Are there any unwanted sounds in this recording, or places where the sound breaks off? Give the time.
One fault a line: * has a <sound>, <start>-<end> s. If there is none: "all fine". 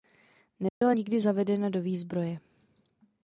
* has a dropout, 0.7-0.8 s